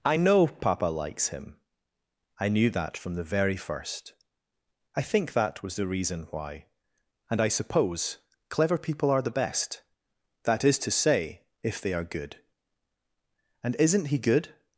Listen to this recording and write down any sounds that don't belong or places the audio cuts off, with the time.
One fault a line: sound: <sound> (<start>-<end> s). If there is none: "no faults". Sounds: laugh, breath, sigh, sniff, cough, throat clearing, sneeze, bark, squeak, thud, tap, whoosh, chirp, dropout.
no faults